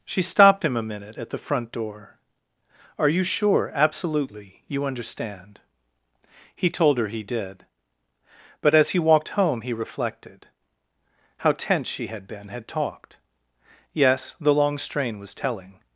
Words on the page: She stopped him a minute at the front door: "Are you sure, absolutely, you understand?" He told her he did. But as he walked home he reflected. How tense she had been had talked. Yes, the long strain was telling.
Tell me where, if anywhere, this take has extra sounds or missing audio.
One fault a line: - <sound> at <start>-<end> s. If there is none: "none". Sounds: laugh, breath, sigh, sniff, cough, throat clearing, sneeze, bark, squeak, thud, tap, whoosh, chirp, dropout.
none